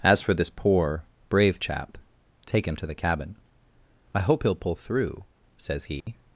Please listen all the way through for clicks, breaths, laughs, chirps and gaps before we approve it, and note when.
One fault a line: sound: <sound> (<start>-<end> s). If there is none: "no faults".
sound: dropout (6.0-6.1 s)